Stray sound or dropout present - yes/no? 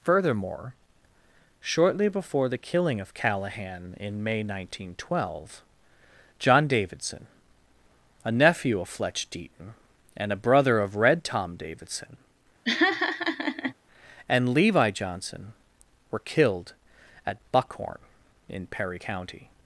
yes